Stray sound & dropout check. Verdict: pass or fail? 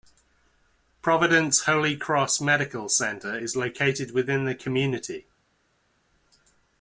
pass